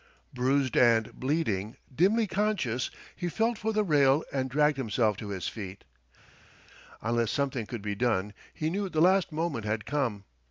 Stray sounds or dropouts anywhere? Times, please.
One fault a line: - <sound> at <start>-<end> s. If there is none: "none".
none